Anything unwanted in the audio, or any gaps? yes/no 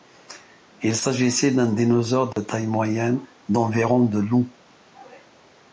yes